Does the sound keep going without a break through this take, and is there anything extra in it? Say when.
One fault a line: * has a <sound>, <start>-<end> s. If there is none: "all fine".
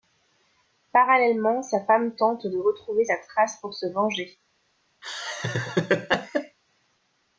* has a laugh, 5.0-6.6 s